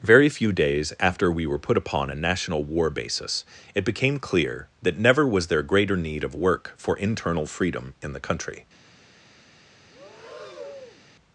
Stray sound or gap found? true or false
true